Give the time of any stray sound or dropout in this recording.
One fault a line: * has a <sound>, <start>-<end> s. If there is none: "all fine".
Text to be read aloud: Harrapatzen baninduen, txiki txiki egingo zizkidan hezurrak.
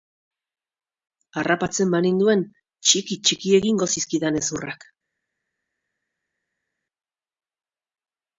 all fine